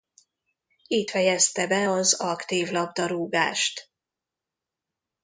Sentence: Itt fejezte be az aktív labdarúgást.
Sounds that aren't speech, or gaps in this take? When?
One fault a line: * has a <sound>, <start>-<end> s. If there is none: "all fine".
all fine